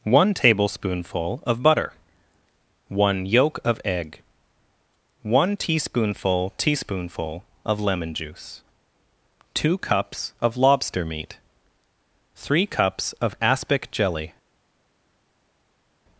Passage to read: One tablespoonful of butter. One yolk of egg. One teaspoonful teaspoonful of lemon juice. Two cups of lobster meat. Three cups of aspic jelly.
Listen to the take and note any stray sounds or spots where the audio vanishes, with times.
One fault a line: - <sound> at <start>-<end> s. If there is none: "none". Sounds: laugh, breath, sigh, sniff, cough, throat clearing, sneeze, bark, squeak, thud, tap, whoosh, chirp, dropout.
none